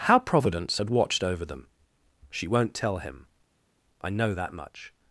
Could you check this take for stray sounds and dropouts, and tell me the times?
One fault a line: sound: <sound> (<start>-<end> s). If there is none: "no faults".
no faults